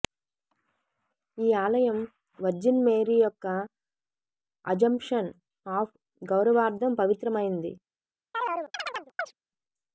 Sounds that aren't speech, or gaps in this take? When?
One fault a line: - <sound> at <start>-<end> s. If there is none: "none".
- chirp at 8.3-9.3 s